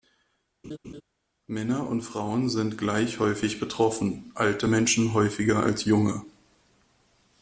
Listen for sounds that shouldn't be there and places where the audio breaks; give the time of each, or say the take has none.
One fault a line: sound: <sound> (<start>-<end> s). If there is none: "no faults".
sound: laugh (0.6-1.0 s)